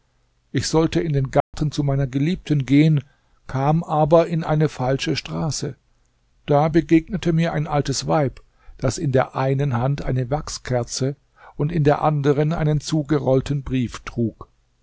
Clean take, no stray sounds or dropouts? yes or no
no